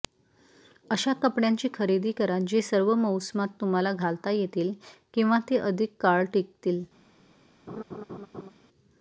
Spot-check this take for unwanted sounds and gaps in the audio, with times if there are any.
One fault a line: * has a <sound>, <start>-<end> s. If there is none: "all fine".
* has a laugh, 7.7-8.5 s